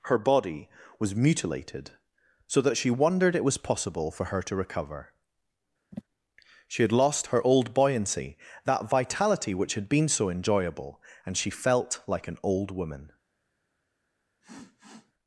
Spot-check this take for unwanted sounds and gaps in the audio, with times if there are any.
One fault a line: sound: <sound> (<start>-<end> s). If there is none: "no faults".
sound: sigh (5.9-6.0 s)
sound: sniff (14.4-15.1 s)